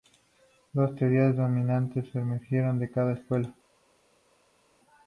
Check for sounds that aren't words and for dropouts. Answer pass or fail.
pass